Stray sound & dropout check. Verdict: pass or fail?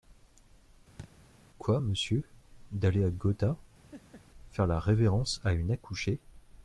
fail